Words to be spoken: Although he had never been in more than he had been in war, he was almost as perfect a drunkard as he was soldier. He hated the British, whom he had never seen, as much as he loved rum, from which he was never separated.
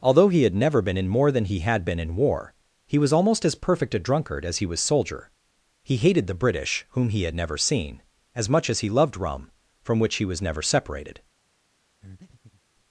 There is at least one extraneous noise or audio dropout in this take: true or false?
true